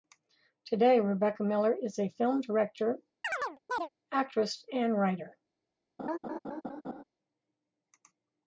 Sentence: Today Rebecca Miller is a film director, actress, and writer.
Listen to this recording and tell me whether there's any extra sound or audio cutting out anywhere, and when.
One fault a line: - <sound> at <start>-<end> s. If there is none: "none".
- chirp at 3.2-3.9 s
- laugh at 6.0-7.0 s